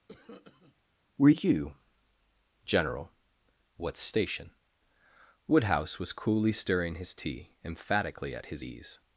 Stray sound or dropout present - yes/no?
yes